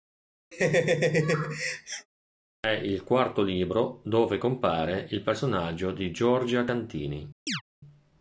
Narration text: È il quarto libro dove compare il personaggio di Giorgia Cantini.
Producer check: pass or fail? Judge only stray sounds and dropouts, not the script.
fail